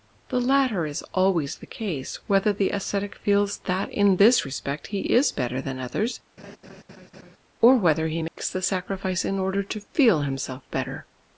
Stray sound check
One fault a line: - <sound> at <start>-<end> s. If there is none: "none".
- laugh at 6.4-7.4 s
- dropout at 8.3-8.4 s